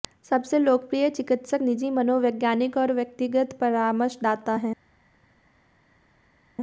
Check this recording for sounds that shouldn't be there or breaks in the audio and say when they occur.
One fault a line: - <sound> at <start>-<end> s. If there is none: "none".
none